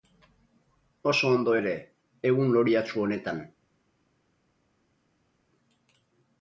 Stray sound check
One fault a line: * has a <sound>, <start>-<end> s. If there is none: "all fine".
all fine